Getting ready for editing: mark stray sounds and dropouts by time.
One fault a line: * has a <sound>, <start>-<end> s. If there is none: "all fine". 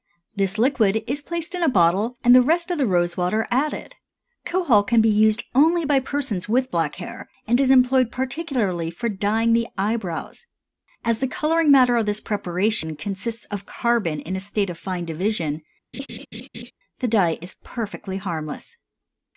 * has a laugh, 15.9-16.7 s